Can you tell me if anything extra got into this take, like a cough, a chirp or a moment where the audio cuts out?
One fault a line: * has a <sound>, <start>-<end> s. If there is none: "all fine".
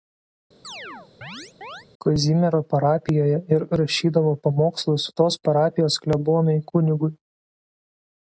* has a chirp, 0.6-1.9 s